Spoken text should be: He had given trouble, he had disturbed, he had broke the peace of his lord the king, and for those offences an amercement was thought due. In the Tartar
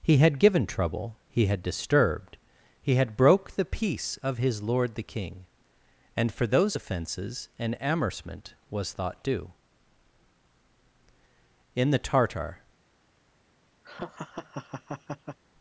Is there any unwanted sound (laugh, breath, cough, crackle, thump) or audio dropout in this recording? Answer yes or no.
yes